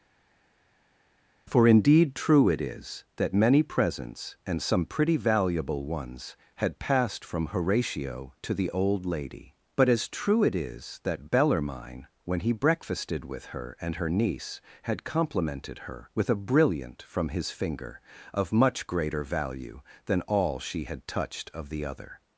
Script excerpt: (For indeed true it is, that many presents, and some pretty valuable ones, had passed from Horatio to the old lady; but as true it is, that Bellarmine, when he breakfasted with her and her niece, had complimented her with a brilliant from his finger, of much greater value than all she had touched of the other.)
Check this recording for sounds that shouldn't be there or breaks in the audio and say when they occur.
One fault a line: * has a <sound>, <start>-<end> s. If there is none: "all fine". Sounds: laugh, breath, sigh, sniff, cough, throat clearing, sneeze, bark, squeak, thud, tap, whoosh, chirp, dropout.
all fine